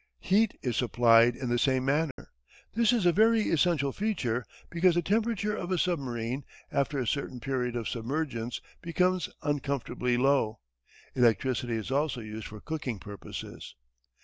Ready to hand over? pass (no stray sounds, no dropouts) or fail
fail